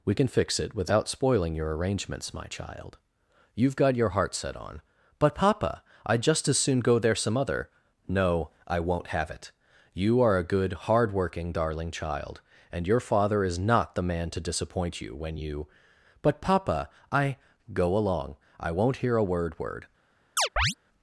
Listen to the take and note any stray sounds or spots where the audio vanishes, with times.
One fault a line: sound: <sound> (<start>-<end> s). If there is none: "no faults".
sound: chirp (20.4-20.7 s)